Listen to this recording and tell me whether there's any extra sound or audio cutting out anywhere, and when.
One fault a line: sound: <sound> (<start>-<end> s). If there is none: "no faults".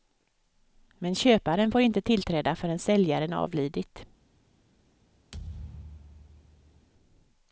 sound: thud (5.3-6.9 s)